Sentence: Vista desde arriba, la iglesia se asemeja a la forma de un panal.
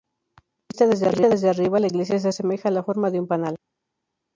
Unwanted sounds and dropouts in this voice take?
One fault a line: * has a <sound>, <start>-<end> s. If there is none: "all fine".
all fine